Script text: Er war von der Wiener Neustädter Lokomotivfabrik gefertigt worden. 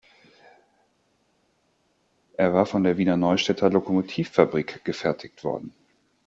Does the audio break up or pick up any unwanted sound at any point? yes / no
no